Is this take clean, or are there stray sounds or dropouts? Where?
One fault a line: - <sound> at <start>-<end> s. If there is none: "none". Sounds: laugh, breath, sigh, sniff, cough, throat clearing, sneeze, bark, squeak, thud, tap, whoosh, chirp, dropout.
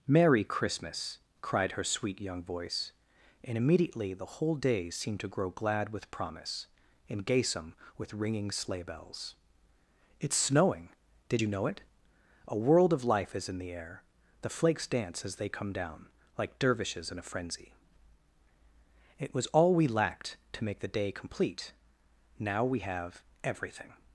none